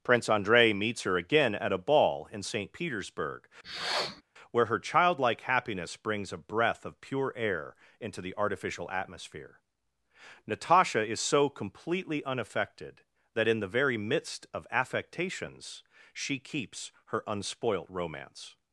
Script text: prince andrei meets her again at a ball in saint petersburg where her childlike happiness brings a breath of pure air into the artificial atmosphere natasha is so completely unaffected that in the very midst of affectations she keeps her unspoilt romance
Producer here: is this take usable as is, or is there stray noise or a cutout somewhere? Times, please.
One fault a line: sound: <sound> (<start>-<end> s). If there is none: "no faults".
sound: sniff (3.6-4.2 s)